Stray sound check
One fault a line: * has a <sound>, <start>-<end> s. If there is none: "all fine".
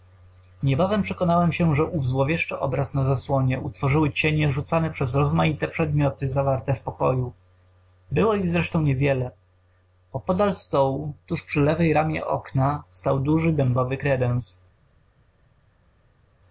all fine